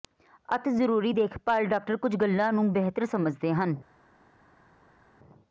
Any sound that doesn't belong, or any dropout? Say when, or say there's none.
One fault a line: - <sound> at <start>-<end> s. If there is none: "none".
none